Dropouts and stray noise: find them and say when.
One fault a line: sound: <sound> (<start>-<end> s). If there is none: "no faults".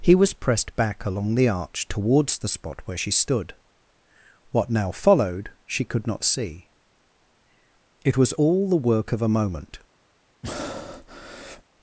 sound: breath (10.4-11.6 s)